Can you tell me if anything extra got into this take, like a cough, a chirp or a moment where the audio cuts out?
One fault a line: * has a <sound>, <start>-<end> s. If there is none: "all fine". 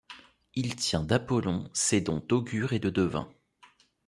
all fine